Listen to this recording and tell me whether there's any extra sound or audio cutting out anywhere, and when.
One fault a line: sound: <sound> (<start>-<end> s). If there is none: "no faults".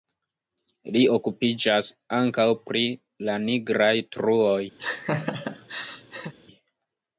sound: laugh (4.8-6.3 s)